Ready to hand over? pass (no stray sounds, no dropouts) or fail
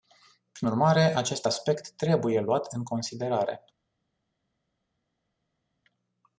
pass